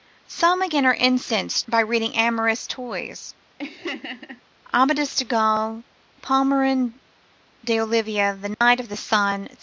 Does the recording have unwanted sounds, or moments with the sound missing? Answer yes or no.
yes